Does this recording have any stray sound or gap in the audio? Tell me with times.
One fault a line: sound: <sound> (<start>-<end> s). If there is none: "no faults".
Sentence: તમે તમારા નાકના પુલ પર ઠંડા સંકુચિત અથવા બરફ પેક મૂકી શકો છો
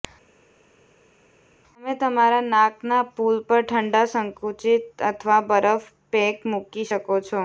no faults